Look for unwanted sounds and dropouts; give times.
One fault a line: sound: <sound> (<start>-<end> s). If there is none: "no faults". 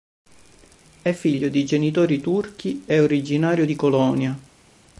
no faults